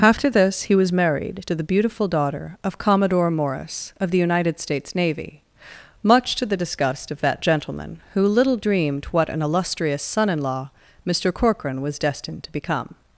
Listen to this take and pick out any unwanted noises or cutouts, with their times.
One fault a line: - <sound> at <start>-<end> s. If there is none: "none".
none